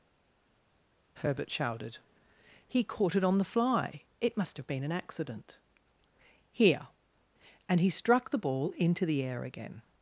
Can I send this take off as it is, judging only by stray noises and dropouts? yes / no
yes